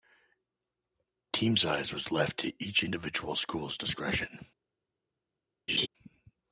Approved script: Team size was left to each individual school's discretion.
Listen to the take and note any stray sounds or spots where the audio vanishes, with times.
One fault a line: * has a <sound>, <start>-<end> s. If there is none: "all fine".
* has a laugh, 5.7-5.9 s